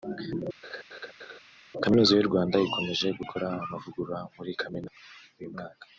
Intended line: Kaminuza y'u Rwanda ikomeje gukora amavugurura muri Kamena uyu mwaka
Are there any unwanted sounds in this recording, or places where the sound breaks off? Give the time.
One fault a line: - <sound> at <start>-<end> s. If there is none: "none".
- laugh at 0.6-1.4 s